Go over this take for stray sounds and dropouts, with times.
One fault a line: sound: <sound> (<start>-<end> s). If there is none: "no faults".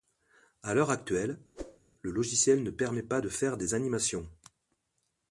sound: whoosh (1.5-1.8 s)